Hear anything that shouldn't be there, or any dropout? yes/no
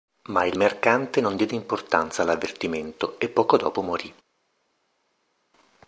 no